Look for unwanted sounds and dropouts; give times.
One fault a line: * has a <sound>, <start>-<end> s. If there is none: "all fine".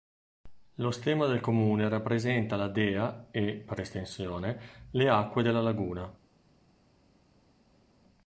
all fine